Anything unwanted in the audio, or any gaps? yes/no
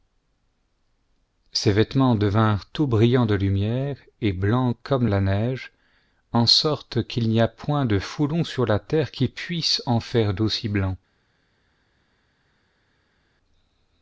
no